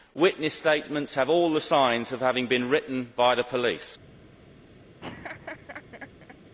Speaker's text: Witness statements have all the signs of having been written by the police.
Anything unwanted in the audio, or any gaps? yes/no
yes